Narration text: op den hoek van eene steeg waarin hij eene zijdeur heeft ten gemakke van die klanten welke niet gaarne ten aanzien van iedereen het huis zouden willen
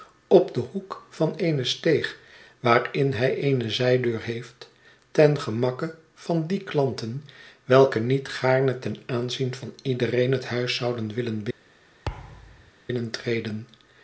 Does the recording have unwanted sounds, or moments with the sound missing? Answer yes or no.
yes